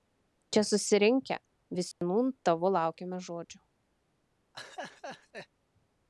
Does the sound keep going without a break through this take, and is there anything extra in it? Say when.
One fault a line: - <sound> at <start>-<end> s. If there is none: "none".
- dropout at 1.9-2.0 s
- laugh at 4.5-5.5 s